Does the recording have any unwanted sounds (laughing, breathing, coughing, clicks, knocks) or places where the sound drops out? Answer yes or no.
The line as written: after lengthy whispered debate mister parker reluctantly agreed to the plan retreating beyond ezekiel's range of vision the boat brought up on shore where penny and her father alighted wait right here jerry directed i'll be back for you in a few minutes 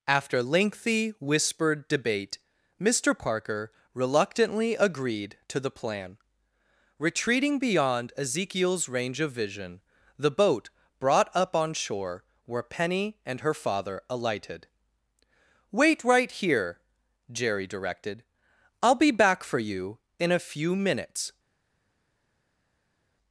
no